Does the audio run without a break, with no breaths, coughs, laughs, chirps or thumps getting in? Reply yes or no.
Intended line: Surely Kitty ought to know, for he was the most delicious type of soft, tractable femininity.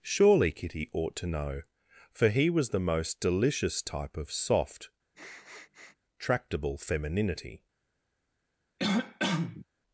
no